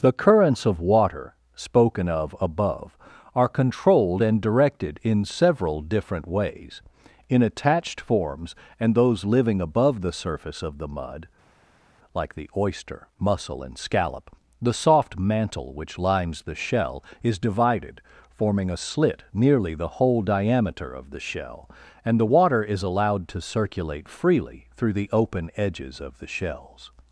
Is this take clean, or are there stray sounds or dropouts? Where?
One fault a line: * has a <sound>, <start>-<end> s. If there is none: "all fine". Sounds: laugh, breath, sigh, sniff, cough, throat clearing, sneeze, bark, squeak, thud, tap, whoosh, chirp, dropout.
all fine